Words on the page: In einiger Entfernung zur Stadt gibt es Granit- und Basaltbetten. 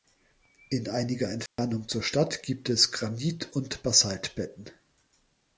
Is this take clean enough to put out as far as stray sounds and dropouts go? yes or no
no